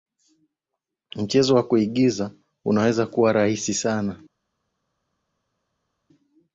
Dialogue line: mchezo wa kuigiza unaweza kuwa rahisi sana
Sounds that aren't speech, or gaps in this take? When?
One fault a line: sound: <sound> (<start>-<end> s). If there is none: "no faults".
no faults